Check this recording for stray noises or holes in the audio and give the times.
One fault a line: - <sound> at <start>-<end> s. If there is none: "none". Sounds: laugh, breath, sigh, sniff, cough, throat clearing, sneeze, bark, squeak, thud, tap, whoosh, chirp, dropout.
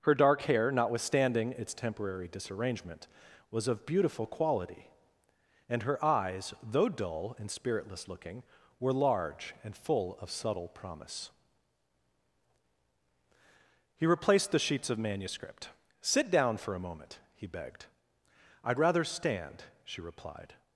none